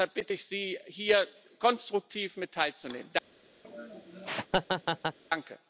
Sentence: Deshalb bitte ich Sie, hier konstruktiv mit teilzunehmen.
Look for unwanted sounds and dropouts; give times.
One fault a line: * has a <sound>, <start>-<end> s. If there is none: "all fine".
* has a laugh, 3.6-5.2 s